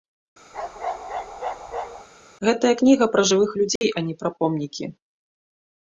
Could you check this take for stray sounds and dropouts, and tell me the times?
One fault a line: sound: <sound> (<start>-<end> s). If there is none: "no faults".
sound: bark (0.5-2.1 s)
sound: dropout (3.8-3.8 s)